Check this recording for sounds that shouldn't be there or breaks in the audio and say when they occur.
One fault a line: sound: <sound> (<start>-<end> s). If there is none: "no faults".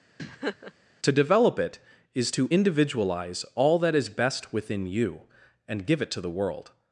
sound: laugh (0.2-0.7 s)